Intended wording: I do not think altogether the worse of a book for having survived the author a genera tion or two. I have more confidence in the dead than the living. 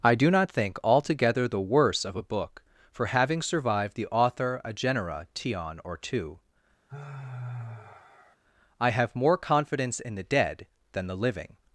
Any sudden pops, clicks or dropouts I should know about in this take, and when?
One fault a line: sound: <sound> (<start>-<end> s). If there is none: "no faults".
sound: sigh (6.9-8.4 s)